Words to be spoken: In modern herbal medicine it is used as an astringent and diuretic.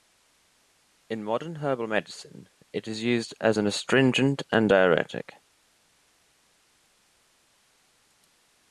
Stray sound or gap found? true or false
false